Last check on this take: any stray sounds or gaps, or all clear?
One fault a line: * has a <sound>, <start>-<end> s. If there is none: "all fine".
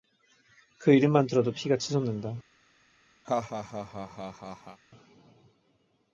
* has a laugh, 3.2-4.8 s